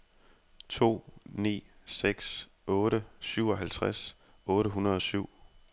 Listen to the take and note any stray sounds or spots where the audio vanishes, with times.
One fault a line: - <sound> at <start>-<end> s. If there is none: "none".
none